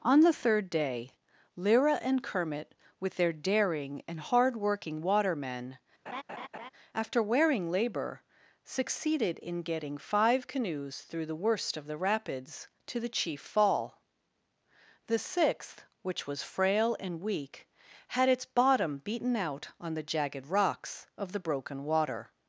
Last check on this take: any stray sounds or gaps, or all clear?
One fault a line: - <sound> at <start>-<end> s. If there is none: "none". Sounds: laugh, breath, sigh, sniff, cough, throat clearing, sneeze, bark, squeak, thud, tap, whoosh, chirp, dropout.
- laugh at 6.1-6.7 s